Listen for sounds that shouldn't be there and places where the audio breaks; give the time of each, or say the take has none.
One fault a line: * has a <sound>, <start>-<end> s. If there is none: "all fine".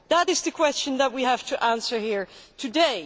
all fine